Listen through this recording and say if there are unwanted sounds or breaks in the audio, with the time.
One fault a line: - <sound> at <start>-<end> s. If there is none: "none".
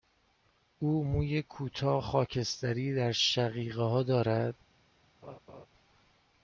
- laugh at 5.2-5.7 s